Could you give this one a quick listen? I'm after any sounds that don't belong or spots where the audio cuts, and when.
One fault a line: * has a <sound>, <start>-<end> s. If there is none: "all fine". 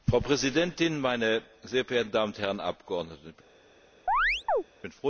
* has a chirp, 4.1-4.6 s